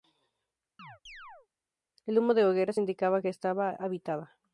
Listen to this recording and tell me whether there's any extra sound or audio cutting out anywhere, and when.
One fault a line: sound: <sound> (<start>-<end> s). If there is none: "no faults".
sound: chirp (0.8-1.5 s)